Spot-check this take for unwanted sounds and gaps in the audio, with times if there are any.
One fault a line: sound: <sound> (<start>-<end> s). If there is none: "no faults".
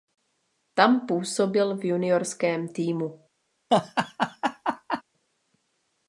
sound: laugh (3.7-5.0 s)